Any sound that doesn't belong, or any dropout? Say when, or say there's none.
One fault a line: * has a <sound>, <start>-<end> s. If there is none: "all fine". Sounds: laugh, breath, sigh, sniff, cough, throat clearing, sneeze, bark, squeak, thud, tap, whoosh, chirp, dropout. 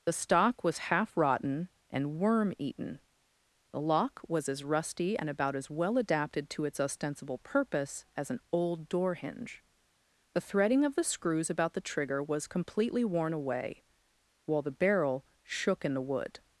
all fine